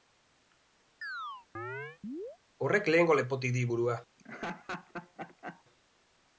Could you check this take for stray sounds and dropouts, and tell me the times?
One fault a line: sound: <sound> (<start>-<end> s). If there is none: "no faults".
sound: chirp (1.0-2.4 s)
sound: laugh (4.2-5.6 s)